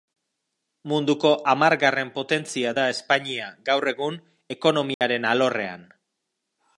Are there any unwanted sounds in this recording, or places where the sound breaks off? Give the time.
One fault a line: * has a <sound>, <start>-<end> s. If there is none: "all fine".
* has a dropout, 4.9-5.0 s